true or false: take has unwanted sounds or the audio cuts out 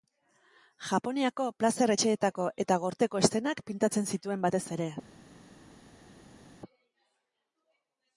false